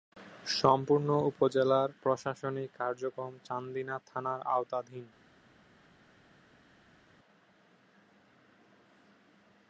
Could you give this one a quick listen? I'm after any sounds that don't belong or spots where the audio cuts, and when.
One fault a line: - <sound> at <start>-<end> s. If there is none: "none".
none